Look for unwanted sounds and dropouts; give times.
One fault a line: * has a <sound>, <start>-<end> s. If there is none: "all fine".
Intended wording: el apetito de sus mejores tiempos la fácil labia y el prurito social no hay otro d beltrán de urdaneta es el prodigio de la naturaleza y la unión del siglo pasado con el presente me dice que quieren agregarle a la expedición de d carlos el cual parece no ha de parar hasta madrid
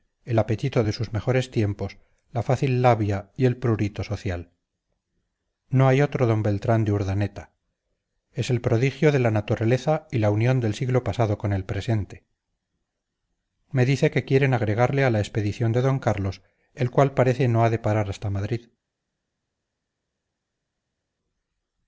all fine